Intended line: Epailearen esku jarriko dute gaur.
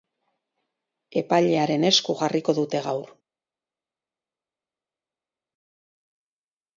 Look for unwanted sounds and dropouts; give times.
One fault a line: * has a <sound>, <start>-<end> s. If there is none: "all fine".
all fine